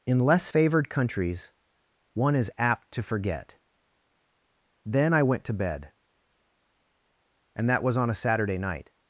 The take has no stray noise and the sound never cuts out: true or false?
true